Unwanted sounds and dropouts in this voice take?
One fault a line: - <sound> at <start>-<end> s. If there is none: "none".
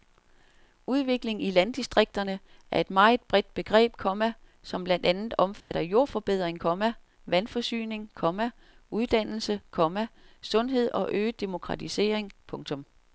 - dropout at 5.6-5.7 s